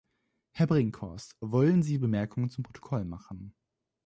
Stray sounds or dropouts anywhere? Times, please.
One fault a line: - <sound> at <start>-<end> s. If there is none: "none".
none